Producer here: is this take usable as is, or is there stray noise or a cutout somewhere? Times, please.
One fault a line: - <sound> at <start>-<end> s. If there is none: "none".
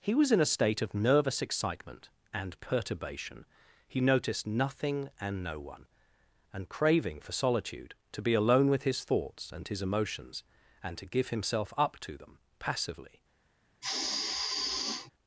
- sigh at 13.8-15.1 s